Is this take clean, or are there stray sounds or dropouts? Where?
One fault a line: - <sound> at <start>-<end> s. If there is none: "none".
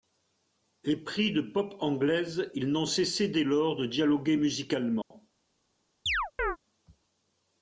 - dropout at 5.0-5.1 s
- chirp at 6.1-6.6 s